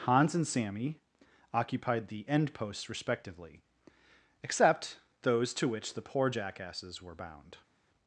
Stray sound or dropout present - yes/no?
no